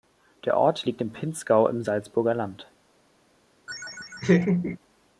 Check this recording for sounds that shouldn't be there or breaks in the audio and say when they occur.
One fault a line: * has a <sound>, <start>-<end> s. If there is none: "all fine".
* has a laugh, 3.7-4.8 s